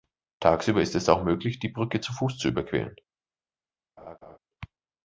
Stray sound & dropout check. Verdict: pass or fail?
fail